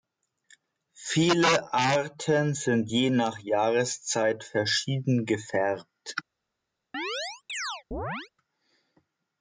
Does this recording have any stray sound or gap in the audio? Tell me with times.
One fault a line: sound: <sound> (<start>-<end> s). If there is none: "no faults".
sound: chirp (6.9-8.3 s)